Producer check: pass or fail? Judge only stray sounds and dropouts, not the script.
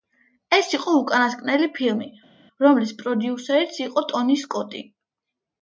pass